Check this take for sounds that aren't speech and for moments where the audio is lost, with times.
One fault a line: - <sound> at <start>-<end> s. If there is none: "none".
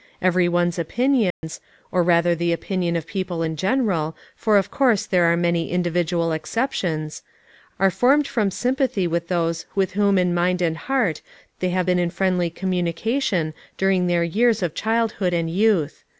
- dropout at 1.3-1.4 s